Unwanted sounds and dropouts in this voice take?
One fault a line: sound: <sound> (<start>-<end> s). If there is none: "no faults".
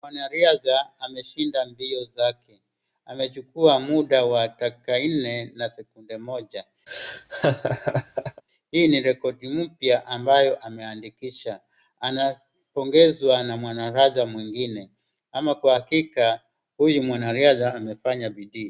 sound: laugh (6.9-8.4 s)